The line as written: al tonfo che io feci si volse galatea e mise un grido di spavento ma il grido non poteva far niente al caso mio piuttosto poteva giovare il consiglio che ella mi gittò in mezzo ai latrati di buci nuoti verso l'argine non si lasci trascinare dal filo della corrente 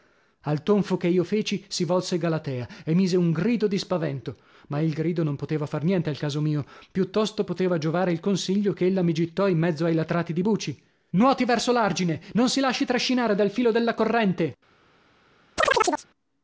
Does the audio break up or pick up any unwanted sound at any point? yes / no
yes